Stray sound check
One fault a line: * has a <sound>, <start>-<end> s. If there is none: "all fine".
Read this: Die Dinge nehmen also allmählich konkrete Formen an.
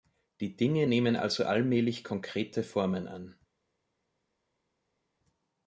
all fine